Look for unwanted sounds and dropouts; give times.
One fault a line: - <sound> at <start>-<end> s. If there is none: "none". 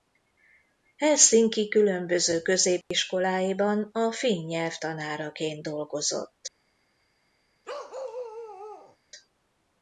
- dropout at 2.8-2.9 s
- bark at 7.6-9.0 s